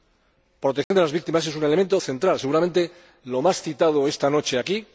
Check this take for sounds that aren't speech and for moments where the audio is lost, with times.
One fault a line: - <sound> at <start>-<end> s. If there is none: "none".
- dropout at 0.8-0.9 s